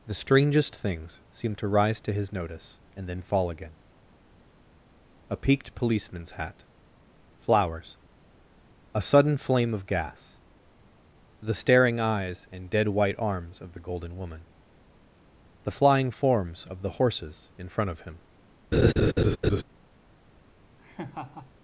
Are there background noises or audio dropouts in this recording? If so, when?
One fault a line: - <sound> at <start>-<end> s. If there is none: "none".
- laugh at 18.7-19.6 s
- laugh at 20.8-21.5 s